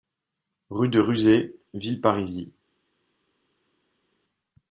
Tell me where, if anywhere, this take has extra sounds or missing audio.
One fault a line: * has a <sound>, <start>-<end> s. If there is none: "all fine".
all fine